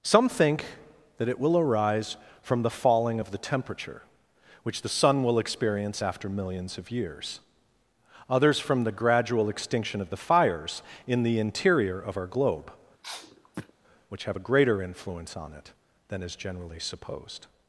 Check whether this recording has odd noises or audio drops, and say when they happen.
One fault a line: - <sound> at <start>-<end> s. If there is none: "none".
- sniff at 13.0-13.7 s